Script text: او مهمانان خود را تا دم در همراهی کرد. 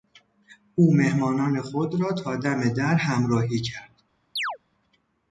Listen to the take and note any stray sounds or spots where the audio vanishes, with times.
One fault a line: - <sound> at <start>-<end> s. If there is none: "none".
- chirp at 4.4-4.6 s